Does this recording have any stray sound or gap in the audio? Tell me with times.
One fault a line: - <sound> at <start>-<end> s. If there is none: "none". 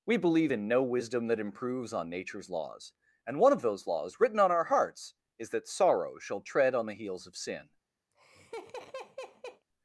- laugh at 8.1-9.6 s